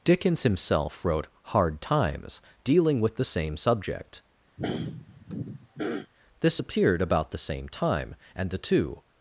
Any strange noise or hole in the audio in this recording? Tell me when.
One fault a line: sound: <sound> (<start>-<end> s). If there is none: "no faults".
sound: throat clearing (4.6-6.1 s)